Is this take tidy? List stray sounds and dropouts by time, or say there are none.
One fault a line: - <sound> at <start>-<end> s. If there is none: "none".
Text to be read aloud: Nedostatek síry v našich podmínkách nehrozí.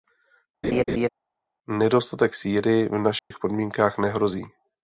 - laugh at 0.6-1.1 s
- dropout at 3.2-3.3 s